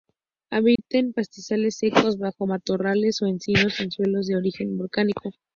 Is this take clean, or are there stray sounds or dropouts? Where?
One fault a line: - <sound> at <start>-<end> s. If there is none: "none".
- dropout at 0.8-0.8 s